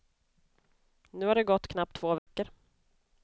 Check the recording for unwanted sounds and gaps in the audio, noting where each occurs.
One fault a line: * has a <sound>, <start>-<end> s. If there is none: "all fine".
* has a dropout, 2.2-2.3 s